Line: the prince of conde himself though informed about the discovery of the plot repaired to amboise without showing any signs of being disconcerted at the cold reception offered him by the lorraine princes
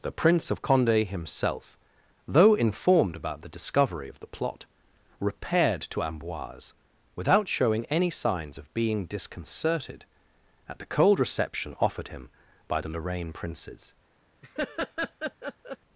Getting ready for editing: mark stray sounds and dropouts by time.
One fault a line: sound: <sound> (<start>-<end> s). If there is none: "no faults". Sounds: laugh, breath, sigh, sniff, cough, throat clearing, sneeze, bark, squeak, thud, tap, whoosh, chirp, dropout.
sound: laugh (14.4-15.8 s)